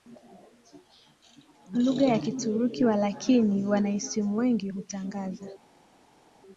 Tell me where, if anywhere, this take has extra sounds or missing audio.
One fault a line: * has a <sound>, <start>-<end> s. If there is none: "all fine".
all fine